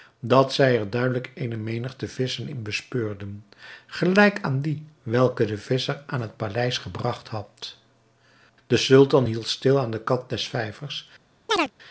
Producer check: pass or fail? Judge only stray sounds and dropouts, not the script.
fail